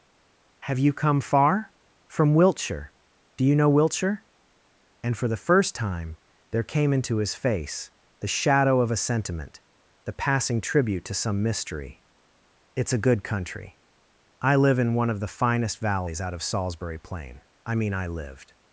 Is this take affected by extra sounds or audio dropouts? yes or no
no